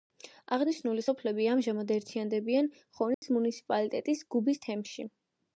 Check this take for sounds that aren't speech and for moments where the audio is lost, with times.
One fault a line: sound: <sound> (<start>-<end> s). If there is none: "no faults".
sound: dropout (3.1-3.2 s)